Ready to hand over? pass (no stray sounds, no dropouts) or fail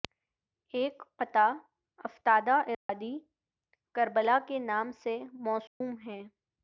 fail